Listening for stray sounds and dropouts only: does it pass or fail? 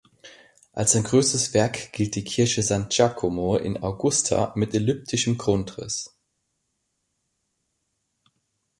pass